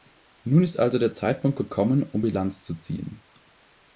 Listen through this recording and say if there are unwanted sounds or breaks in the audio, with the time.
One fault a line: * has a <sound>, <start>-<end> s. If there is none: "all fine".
all fine